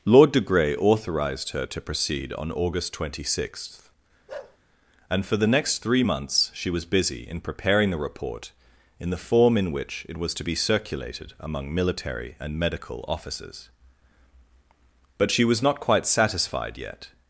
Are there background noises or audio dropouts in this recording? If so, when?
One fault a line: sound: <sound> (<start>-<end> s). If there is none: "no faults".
sound: bark (4.3-4.6 s)